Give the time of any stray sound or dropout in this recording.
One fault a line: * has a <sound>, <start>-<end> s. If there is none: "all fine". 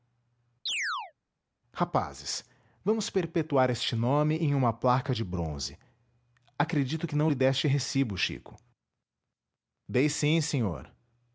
* has a chirp, 0.7-1.1 s